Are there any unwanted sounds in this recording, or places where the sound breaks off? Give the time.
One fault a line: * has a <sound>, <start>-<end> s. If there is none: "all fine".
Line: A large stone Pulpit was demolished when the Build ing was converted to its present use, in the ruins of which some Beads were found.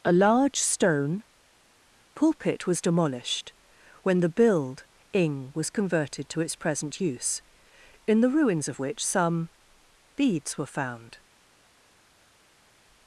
all fine